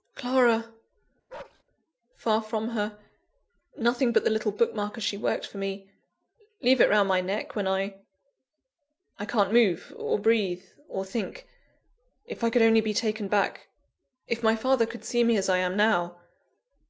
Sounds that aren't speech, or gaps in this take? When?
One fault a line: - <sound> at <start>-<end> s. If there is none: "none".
- bark at 1.3-1.6 s